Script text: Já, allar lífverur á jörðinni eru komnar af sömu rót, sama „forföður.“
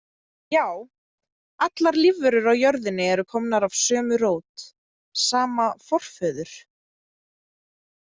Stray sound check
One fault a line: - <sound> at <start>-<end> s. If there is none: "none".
none